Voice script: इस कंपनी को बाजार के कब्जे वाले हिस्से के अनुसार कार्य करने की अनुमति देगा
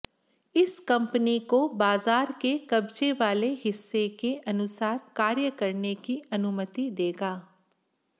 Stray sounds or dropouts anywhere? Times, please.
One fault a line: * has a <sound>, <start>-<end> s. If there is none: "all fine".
all fine